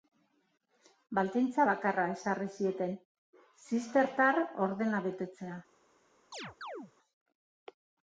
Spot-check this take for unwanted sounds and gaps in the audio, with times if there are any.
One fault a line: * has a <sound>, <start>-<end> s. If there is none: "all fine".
* has a chirp, 6.3-6.9 s